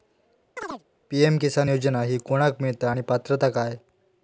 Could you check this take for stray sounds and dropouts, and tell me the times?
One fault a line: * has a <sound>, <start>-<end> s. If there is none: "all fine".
* has a chirp, 0.6-0.8 s